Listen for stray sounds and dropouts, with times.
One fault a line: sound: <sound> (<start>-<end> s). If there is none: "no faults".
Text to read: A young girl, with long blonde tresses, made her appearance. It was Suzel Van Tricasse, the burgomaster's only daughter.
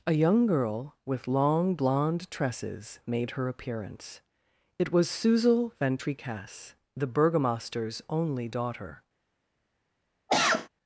sound: cough (10.3-10.7 s)